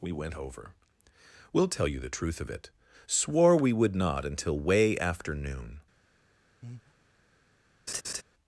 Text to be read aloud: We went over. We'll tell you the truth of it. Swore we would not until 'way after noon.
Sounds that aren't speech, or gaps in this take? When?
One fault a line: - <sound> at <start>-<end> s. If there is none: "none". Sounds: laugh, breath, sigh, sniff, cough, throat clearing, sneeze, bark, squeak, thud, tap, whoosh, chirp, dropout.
- breath at 6.6-6.9 s
- laugh at 7.9-8.2 s